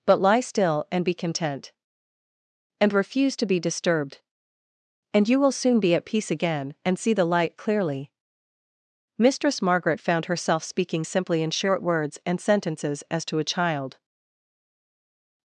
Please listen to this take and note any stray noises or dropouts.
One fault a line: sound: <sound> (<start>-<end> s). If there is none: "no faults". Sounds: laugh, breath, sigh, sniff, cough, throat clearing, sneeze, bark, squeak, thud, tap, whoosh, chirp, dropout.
no faults